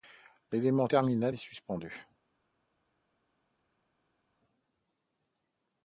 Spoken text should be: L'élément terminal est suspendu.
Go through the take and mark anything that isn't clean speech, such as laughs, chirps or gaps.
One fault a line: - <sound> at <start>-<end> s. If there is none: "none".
none